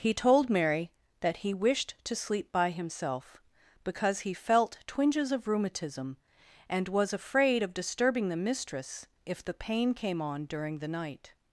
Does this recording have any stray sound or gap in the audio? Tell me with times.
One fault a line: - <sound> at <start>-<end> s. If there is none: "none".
none